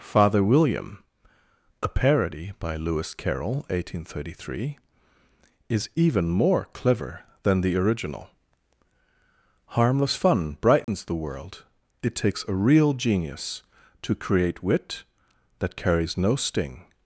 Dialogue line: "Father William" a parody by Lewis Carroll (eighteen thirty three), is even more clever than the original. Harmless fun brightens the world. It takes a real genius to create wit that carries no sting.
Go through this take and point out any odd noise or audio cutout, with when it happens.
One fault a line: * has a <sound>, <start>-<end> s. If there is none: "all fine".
* has a dropout, 10.8-10.9 s